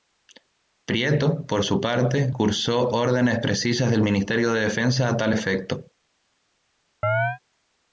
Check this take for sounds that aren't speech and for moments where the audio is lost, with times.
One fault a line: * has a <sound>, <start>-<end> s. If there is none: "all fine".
* has a chirp, 7.0-7.4 s